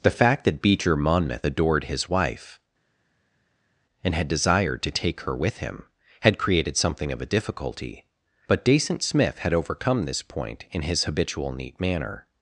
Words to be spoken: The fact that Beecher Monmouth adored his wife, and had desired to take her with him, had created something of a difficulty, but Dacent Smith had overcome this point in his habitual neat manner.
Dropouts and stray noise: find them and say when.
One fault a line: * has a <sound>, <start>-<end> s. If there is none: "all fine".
all fine